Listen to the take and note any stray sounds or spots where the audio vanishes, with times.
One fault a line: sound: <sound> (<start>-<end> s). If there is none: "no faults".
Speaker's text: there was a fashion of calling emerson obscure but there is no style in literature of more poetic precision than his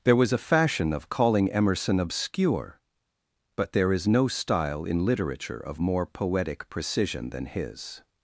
no faults